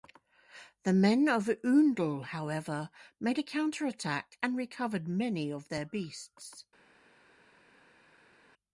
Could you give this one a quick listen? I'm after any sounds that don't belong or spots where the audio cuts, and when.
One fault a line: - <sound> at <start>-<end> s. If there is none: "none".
none